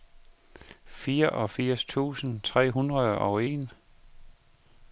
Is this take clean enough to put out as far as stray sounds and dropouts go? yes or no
yes